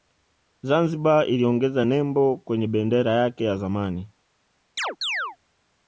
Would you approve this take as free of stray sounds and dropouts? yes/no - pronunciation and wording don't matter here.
no